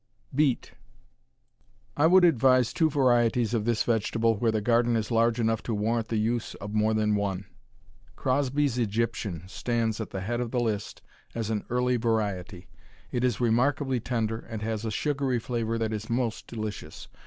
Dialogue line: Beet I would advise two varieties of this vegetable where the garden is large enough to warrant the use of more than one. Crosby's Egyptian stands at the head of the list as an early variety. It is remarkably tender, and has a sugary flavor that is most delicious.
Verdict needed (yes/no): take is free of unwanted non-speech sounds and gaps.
yes